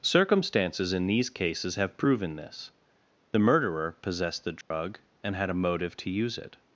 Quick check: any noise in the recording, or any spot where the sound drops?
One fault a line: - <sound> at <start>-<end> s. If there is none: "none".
- dropout at 4.6-4.7 s